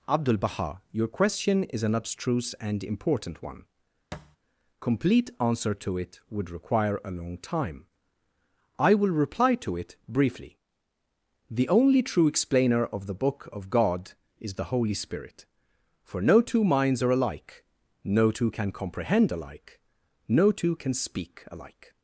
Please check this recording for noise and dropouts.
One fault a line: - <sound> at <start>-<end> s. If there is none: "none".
- thud at 4.1-4.4 s